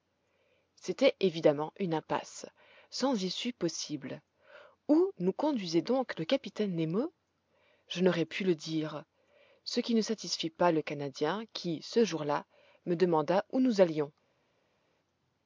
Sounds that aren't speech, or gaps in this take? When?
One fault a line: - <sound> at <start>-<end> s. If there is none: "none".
none